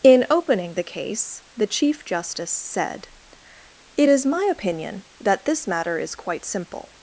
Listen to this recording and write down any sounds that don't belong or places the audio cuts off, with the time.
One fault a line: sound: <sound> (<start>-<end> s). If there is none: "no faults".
no faults